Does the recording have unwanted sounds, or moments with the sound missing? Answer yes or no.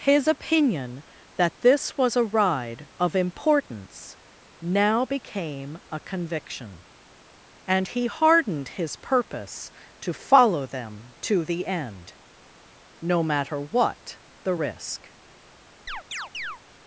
yes